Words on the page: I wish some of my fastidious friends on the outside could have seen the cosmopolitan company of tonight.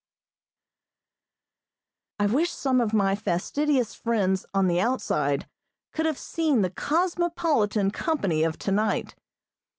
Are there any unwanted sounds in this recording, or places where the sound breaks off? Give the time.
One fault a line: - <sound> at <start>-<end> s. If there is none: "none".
none